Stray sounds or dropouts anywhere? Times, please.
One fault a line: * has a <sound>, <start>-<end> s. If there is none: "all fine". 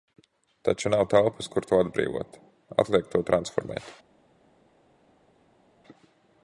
all fine